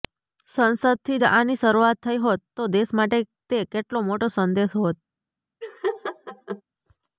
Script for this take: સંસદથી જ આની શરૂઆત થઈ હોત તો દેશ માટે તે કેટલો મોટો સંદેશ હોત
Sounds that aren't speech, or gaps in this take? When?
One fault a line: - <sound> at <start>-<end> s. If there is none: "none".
- laugh at 5.6-6.6 s